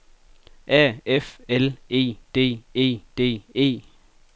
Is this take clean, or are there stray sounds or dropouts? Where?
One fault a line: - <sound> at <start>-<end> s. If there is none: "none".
none